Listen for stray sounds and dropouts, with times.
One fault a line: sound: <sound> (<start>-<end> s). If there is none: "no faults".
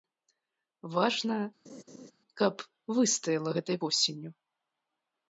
sound: laugh (1.6-2.1 s)